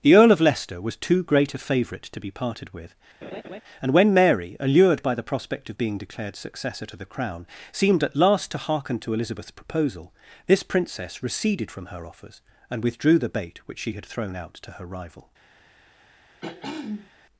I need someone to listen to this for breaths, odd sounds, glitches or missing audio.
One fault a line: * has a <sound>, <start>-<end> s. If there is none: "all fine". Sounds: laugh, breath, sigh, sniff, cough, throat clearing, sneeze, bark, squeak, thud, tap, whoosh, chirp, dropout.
* has a laugh, 3.2-3.6 s
* has a throat clearing, 16.4-17.1 s